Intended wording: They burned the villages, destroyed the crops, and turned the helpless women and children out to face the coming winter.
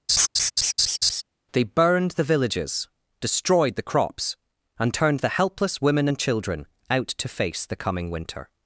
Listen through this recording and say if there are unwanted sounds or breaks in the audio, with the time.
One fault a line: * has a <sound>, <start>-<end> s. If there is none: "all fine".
* has a laugh, 0.1-1.2 s